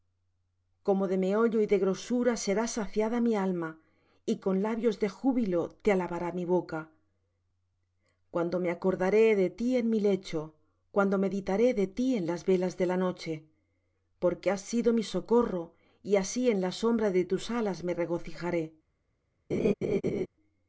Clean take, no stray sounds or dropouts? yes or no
no